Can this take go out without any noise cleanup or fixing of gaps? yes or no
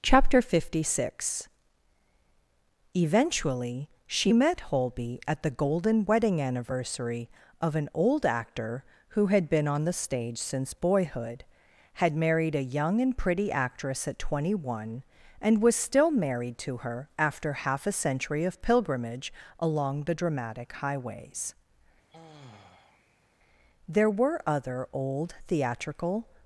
no